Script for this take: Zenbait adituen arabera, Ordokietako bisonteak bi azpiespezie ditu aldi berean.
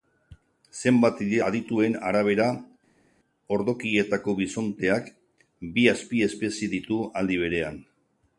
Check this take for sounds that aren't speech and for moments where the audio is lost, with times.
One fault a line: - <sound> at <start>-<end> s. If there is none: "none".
none